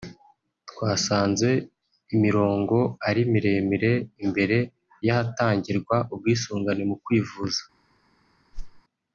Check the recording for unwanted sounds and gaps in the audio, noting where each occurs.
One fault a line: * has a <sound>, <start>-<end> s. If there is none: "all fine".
* has a whoosh, 8.5-8.8 s